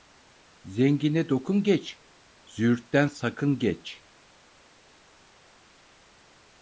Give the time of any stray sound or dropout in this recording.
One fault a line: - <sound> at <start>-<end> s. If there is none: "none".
none